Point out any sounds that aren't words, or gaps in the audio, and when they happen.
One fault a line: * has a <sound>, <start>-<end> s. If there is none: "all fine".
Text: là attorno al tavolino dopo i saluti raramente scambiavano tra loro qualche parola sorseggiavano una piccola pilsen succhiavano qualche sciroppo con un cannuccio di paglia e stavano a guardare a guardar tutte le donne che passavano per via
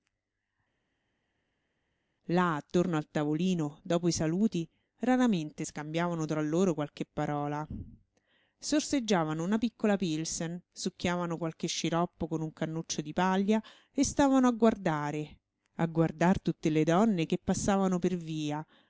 all fine